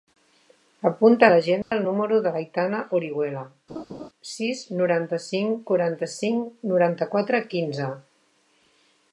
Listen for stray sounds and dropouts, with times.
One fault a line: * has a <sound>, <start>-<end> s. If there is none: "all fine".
* has a dropout, 1.6-1.7 s
* has a laugh, 3.7-4.1 s